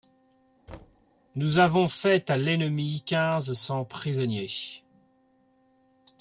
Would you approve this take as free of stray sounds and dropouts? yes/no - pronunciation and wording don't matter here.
no